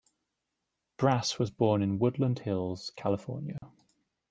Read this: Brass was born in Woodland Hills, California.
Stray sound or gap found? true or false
true